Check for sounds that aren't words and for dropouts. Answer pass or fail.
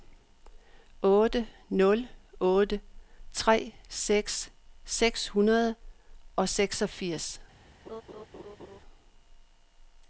fail